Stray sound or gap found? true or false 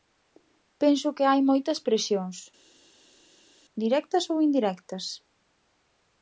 false